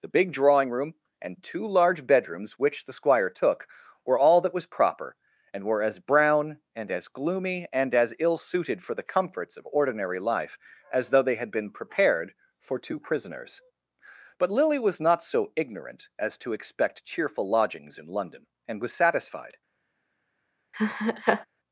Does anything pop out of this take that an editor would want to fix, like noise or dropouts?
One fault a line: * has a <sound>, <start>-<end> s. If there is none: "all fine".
* has a laugh, 20.7-21.5 s